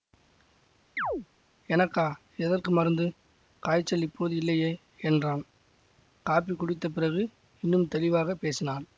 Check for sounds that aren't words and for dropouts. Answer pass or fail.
fail